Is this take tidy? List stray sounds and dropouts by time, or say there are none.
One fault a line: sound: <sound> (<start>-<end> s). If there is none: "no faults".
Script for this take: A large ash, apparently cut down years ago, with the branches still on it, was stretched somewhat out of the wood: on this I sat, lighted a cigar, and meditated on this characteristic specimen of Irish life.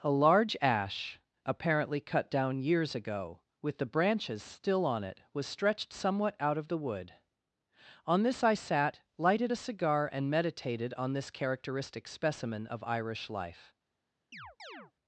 sound: chirp (14.3-14.9 s)